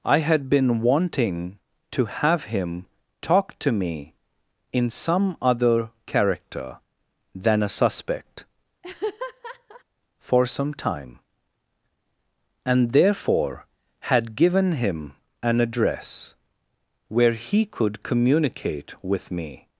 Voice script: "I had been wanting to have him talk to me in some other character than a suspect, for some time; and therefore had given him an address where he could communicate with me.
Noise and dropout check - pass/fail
fail